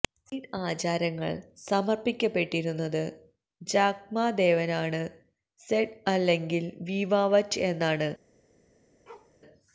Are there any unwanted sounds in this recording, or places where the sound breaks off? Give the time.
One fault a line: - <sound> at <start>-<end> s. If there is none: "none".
- bark at 9.1-9.4 s